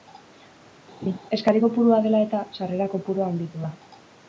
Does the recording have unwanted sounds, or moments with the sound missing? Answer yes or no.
yes